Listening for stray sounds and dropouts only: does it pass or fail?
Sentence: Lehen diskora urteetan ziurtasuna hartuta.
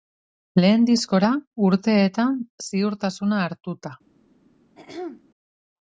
fail